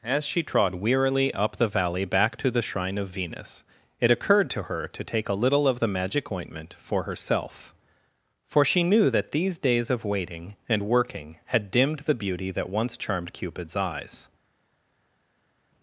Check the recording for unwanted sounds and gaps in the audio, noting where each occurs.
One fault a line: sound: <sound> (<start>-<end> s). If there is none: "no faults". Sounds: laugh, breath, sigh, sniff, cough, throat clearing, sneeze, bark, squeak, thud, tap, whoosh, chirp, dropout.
no faults